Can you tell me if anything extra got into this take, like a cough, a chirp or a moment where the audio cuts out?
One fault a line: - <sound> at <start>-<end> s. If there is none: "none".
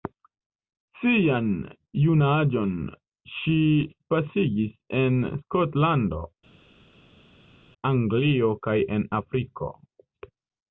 none